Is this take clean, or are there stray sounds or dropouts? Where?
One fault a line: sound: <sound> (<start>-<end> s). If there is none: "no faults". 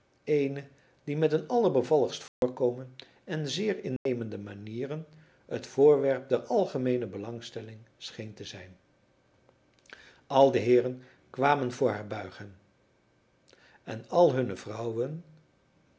sound: dropout (2.3-2.4 s)
sound: dropout (4.0-4.1 s)